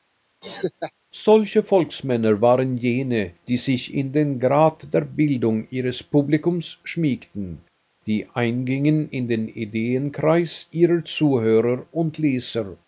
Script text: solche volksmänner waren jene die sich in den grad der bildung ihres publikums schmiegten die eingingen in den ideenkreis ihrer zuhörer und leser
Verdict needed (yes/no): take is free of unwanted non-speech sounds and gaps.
no